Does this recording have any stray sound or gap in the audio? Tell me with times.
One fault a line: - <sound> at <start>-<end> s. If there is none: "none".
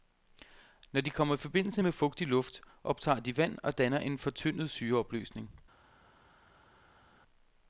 none